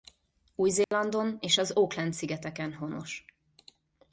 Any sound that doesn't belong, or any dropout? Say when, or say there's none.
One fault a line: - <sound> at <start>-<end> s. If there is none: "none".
- dropout at 0.8-0.9 s